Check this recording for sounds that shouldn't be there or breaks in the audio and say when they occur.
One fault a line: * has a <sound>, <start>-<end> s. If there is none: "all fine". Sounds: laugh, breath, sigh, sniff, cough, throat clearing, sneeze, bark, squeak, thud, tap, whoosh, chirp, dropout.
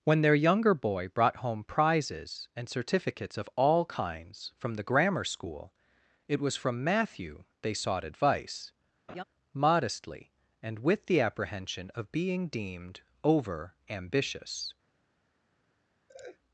* has a laugh, 9.1-9.2 s
* has a laugh, 16.1-16.4 s